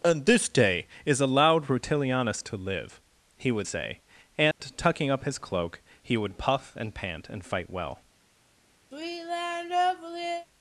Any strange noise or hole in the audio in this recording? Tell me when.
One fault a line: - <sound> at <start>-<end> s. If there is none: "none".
- dropout at 4.5-4.6 s
- sigh at 8.9-10.5 s